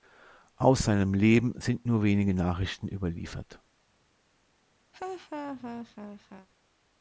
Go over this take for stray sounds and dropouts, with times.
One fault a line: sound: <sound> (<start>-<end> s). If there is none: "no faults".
sound: laugh (4.9-6.5 s)